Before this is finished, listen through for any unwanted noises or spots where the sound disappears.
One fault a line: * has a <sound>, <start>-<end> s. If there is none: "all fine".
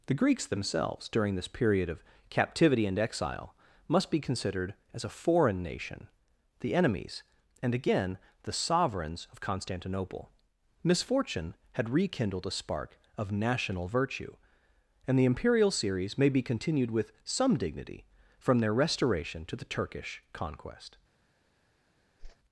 * has a whoosh, 22.2-22.4 s